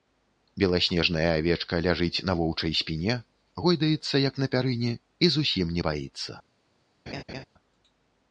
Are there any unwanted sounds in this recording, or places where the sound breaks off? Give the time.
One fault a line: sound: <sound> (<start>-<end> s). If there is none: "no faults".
sound: laugh (7.1-7.5 s)